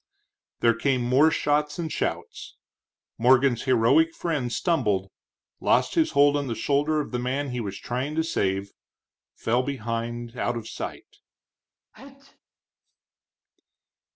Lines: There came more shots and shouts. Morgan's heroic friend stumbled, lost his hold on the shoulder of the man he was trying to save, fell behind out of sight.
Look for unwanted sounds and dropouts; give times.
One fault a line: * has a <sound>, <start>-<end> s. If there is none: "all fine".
* has a sneeze, 11.9-12.4 s